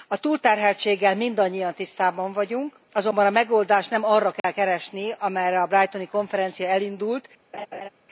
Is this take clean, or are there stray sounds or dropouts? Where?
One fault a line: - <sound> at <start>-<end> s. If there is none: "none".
- dropout at 4.4-4.4 s
- laugh at 7.5-7.9 s